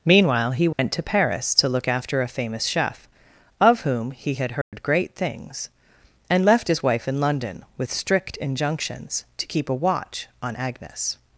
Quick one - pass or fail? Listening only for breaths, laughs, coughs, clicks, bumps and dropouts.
fail